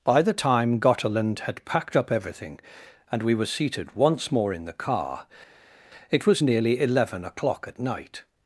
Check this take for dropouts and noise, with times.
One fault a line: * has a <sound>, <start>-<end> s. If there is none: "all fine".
all fine